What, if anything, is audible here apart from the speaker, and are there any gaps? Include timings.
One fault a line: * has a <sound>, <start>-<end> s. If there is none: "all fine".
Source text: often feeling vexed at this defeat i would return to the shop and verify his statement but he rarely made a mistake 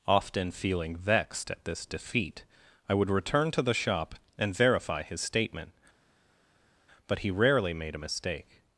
all fine